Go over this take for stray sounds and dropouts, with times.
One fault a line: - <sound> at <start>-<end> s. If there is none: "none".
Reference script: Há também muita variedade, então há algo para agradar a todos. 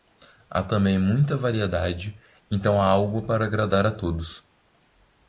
none